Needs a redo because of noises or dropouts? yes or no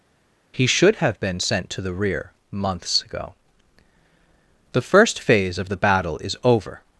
no